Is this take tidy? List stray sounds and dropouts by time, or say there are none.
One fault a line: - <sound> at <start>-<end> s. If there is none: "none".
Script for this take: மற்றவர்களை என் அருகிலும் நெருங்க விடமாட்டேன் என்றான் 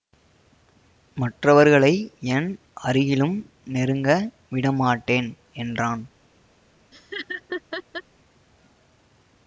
- laugh at 6.9-8.0 s